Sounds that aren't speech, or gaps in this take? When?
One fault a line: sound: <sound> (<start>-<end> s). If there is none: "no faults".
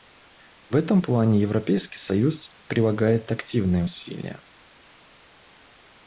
no faults